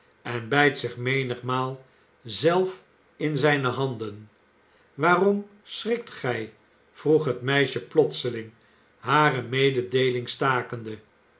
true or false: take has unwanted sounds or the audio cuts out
false